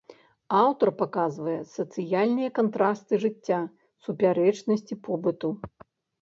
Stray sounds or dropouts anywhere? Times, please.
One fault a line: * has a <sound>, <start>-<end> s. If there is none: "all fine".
all fine